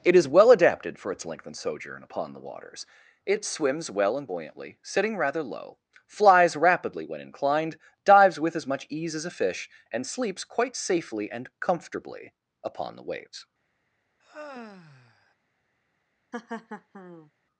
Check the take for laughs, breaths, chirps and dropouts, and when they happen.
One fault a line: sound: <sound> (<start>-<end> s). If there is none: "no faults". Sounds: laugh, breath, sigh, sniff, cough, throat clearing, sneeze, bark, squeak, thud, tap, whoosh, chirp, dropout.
sound: sigh (14.2-15.3 s)
sound: laugh (16.3-17.3 s)